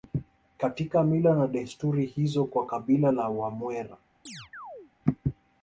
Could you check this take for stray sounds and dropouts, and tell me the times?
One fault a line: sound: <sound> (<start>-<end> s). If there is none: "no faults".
sound: chirp (4.3-4.9 s)